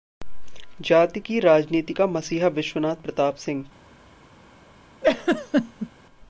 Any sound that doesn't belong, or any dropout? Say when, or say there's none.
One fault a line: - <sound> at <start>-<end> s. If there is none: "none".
- laugh at 5.0-5.9 s